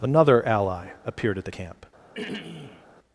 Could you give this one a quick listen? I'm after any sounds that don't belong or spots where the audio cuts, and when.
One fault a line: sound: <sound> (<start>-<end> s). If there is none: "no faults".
sound: throat clearing (2.1-2.9 s)